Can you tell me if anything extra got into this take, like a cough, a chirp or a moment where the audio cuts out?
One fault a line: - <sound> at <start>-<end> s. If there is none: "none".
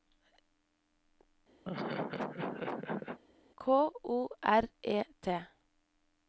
- laugh at 1.6-3.2 s